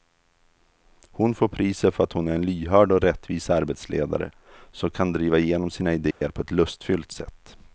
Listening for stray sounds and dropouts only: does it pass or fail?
fail